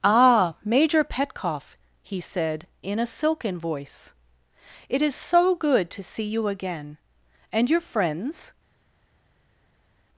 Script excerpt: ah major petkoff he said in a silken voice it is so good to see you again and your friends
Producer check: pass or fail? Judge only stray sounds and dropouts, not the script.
pass